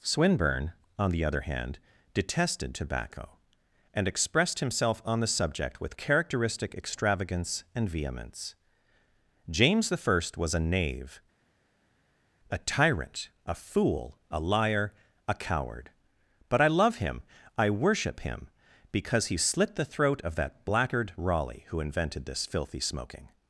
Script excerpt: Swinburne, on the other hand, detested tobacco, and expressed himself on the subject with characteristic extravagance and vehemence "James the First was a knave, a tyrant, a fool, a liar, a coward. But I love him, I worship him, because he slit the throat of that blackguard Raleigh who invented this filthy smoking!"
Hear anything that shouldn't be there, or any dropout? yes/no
no